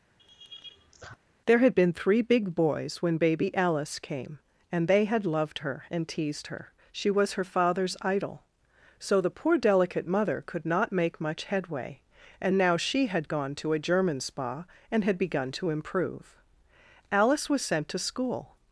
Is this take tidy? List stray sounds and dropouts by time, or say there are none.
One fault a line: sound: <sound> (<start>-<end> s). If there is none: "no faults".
sound: laugh (0.2-1.2 s)